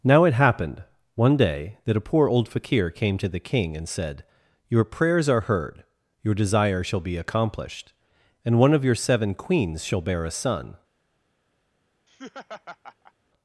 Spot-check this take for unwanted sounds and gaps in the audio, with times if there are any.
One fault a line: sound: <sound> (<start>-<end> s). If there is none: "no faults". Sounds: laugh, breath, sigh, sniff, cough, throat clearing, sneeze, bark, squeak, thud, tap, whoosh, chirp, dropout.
sound: laugh (12.1-13.1 s)